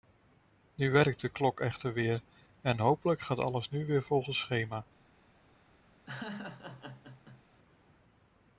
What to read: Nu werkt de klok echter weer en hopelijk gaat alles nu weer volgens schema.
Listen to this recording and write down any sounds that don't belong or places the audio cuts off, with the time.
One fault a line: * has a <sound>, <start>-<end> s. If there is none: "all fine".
* has a laugh, 6.1-7.4 s